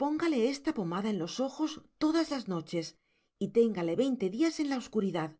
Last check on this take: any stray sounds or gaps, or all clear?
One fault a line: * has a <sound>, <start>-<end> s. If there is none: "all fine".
all fine